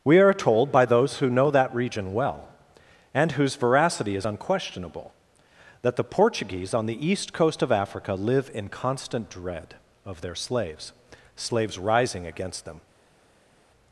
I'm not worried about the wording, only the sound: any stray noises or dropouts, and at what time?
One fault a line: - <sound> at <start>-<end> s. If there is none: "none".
none